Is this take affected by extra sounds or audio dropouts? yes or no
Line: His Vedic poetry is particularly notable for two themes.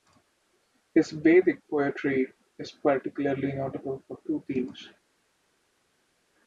no